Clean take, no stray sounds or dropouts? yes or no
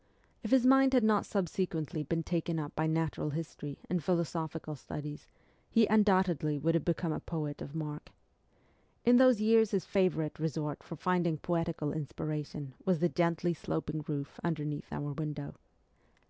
yes